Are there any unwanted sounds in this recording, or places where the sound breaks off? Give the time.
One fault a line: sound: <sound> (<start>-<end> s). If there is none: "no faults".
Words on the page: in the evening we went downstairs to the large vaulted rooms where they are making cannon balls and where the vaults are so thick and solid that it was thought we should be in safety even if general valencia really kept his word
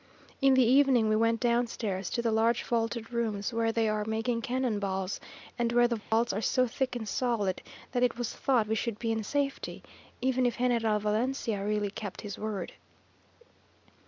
sound: dropout (6.0-6.1 s)